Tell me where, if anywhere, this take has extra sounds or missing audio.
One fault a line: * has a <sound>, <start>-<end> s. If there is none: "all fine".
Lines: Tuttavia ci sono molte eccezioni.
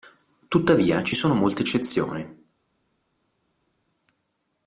all fine